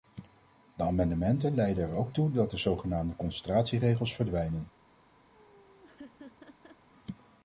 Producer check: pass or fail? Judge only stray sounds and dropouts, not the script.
fail